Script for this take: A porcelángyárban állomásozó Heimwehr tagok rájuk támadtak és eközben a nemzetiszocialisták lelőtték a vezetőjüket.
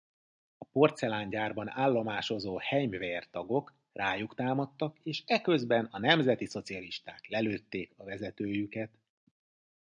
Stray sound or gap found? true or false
false